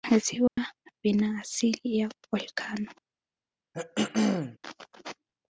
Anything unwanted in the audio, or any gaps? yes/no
yes